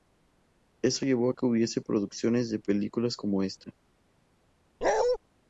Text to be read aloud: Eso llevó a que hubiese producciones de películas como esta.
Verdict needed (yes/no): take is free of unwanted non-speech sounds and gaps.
no